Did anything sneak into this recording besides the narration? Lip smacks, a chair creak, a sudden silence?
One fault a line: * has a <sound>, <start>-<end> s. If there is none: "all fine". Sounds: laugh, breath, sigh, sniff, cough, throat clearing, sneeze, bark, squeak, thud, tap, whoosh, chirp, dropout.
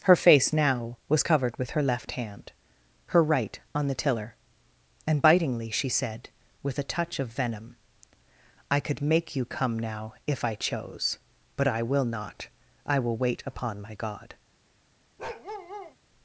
* has a bark, 15.2-16.0 s